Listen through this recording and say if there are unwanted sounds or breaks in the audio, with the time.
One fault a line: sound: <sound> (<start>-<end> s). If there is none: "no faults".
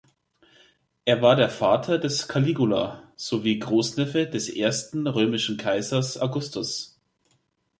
no faults